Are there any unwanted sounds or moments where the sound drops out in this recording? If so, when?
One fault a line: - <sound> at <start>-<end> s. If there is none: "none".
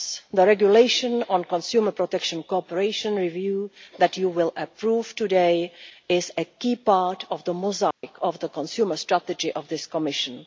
- dropout at 7.9-8.0 s